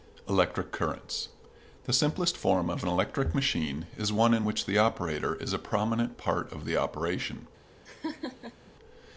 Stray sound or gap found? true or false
true